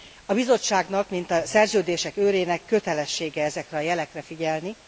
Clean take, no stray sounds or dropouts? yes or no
yes